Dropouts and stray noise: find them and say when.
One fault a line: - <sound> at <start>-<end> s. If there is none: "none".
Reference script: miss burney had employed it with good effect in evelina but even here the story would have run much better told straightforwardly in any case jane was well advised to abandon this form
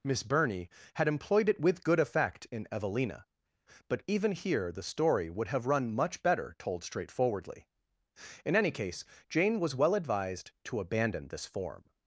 none